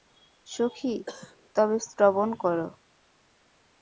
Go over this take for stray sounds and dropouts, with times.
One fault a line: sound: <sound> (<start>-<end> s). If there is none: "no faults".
sound: cough (1.1-1.4 s)